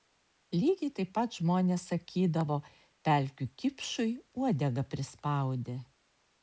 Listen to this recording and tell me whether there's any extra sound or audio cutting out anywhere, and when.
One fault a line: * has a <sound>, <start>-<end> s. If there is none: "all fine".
all fine